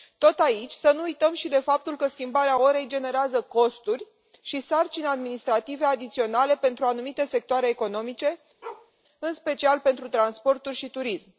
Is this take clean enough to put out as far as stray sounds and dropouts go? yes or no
no